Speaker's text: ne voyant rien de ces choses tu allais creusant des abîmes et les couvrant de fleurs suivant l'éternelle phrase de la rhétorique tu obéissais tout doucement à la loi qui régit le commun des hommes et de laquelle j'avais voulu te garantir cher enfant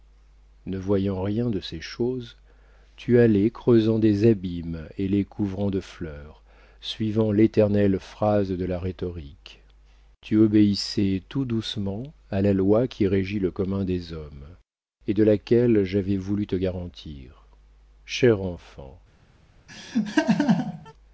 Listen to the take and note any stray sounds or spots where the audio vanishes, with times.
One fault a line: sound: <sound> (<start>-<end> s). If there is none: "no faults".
sound: laugh (19.7-20.9 s)